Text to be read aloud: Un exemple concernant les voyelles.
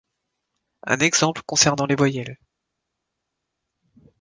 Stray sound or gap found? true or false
false